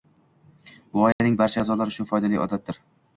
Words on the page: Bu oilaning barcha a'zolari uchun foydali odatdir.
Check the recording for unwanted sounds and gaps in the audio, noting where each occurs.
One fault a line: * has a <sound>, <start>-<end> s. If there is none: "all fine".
* has a dropout, 1.1-1.2 s